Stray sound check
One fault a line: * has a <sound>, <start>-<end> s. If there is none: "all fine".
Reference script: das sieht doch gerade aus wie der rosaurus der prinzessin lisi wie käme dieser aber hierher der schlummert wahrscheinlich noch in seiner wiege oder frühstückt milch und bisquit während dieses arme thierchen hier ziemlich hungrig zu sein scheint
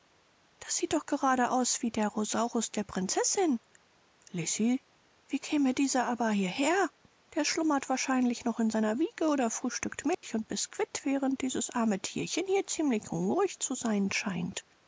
* has a dropout, 10.1-10.2 s